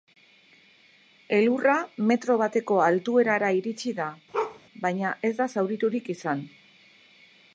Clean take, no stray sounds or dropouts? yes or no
no